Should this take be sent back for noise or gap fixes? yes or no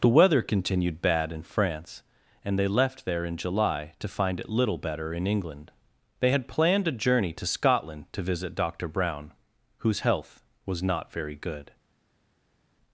no